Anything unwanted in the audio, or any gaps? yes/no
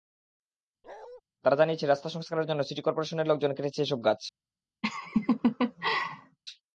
yes